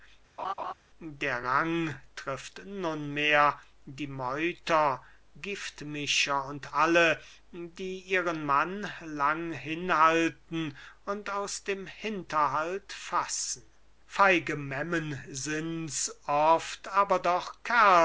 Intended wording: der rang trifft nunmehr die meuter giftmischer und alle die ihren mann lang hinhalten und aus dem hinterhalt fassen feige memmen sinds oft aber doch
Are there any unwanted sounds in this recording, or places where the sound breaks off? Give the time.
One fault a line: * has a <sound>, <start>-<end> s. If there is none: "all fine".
* has a laugh, 0.4-0.7 s